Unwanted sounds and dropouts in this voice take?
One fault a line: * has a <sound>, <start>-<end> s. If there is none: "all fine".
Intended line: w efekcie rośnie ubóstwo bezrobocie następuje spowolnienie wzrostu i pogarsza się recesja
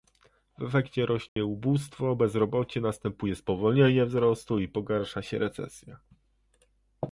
* has a dropout, 1.3-1.4 s